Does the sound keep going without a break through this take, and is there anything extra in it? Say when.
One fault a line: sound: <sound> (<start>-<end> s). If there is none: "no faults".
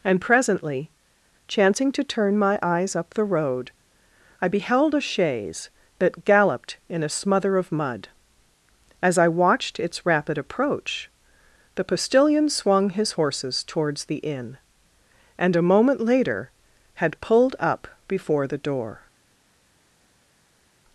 no faults